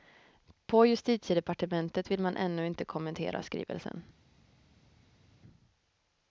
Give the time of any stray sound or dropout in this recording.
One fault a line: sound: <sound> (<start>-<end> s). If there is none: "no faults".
no faults